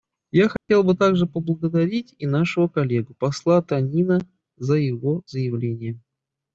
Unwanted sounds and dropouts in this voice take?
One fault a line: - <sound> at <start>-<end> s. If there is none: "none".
- dropout at 0.6-0.7 s